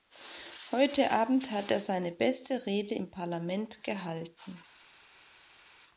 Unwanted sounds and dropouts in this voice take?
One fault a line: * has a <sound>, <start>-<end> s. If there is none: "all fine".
all fine